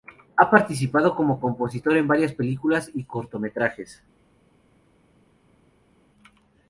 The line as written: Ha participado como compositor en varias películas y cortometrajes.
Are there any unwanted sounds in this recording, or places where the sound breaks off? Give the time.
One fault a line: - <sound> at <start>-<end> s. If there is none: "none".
none